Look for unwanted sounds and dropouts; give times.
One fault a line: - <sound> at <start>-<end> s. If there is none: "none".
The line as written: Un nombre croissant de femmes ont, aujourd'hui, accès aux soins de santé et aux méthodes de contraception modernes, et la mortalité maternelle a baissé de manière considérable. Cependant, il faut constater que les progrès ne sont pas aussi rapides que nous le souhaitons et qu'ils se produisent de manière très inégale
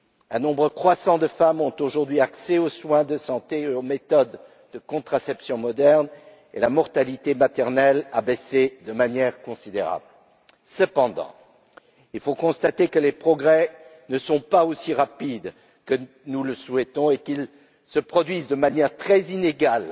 none